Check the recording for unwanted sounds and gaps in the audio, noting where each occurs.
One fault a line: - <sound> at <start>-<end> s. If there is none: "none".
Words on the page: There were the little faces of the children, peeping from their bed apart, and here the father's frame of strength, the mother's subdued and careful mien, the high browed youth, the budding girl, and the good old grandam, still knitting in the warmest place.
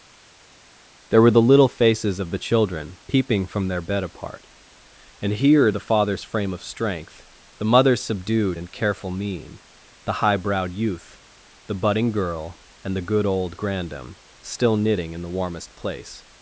none